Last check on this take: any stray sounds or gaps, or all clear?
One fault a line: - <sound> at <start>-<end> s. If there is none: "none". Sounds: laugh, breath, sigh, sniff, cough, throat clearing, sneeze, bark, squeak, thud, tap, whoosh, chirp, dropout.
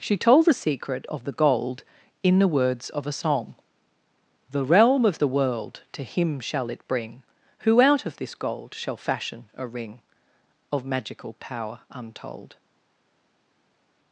none